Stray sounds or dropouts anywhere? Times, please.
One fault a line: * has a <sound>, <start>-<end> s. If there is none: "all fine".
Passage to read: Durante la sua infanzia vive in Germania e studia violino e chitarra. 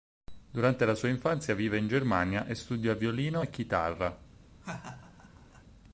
* has a laugh, 4.6-5.6 s